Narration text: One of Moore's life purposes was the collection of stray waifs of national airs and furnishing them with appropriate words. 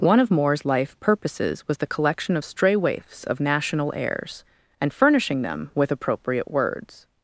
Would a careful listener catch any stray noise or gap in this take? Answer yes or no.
no